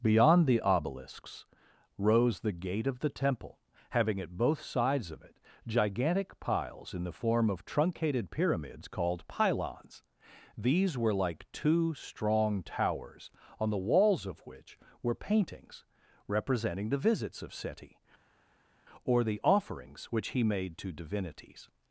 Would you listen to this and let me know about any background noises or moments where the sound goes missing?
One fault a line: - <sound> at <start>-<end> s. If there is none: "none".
none